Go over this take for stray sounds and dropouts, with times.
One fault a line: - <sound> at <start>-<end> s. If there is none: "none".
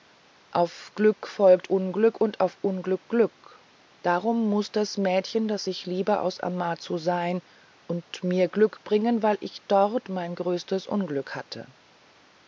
none